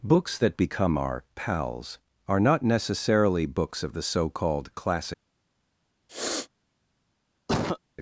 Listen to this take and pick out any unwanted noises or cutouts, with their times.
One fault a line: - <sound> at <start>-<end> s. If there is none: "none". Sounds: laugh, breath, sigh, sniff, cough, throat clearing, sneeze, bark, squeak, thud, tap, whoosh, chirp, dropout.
- sniff at 6.1-6.5 s
- cough at 7.5-7.8 s